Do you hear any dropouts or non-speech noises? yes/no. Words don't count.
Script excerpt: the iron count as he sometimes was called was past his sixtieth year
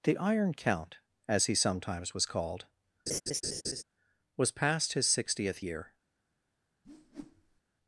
yes